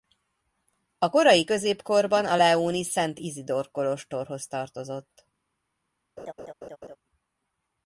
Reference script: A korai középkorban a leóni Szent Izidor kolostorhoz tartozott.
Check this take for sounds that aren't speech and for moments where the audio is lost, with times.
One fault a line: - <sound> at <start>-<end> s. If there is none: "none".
- laugh at 6.2-7.0 s